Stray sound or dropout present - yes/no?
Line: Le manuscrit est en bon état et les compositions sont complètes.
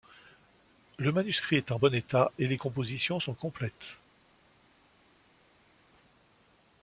no